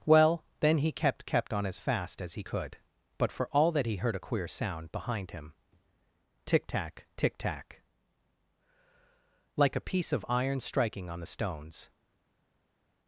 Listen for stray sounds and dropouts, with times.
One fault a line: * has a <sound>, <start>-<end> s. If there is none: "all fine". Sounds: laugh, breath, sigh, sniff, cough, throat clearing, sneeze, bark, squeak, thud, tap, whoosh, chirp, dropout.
all fine